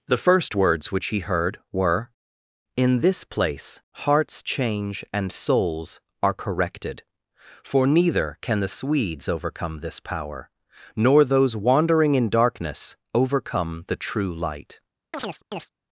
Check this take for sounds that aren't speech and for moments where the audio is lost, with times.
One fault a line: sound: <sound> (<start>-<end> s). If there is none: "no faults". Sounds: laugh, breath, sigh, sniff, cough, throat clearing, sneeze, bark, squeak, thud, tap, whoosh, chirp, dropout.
sound: chirp (15.1-15.7 s)